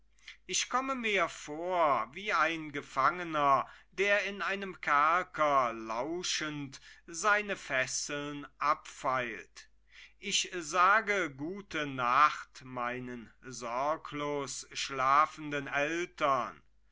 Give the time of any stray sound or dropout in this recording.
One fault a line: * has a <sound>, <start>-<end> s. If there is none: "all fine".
all fine